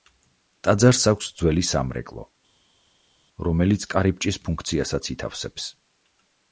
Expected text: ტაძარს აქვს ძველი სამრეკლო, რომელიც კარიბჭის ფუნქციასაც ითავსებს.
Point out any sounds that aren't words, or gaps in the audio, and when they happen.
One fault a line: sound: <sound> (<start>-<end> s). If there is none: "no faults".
no faults